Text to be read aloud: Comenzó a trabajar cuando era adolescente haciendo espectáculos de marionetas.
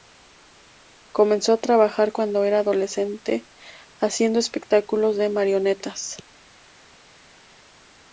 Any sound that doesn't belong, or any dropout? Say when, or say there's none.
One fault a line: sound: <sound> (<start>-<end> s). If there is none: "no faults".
no faults